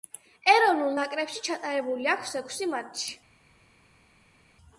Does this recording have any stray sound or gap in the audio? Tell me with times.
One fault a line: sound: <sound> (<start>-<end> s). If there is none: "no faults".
no faults